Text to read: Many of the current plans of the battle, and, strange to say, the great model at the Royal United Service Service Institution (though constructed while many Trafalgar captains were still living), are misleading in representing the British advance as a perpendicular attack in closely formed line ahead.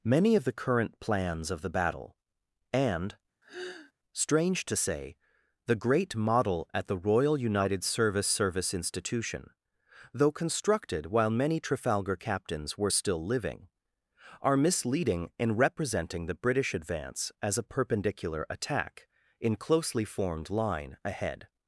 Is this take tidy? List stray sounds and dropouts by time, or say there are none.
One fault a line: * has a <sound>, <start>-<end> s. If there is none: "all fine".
* has a sigh, 3.4-3.9 s